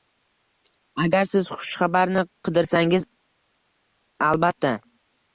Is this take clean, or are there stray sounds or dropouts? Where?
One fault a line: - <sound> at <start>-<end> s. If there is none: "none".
none